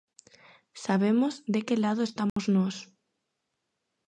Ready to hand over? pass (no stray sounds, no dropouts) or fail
fail